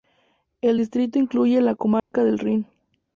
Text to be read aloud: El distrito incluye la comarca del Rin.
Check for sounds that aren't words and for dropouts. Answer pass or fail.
fail